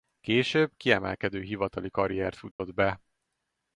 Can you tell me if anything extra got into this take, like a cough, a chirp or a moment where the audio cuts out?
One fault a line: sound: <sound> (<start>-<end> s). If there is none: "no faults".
sound: dropout (2.5-2.6 s)